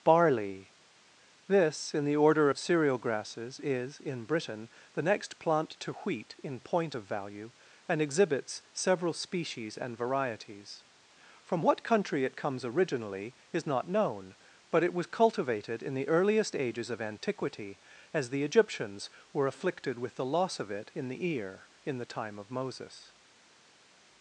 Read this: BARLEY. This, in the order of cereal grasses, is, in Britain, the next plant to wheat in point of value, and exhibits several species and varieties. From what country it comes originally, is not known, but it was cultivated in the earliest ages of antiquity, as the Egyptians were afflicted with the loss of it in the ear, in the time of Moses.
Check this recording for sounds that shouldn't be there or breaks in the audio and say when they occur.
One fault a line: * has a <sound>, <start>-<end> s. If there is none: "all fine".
all fine